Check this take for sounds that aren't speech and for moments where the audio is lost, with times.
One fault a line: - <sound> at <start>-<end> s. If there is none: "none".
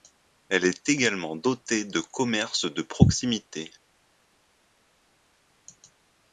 none